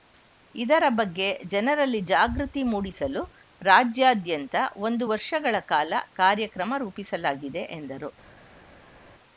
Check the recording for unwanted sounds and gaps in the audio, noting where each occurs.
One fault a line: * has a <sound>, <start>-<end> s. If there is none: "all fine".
all fine